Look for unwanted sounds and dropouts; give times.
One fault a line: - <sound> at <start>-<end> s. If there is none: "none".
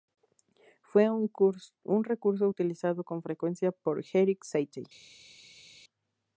none